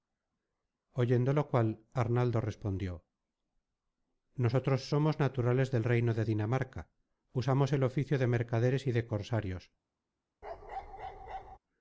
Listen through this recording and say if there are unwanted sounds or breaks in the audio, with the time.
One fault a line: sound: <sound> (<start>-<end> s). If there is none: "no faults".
sound: bark (10.4-11.6 s)